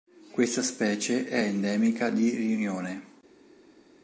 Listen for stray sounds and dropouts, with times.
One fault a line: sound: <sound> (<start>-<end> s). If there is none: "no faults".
no faults